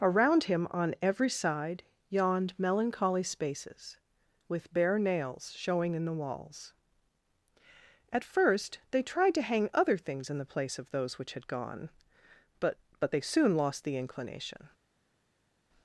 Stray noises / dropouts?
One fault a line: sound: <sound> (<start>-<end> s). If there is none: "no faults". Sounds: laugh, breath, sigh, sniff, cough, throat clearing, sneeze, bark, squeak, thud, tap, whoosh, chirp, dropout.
no faults